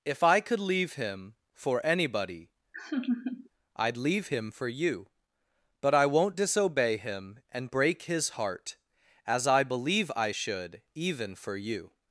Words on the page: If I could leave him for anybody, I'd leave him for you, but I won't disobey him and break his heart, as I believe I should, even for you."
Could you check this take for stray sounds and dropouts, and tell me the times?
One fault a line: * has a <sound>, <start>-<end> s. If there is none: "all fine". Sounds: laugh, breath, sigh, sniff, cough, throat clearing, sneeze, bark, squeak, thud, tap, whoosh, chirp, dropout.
* has a laugh, 2.7-3.5 s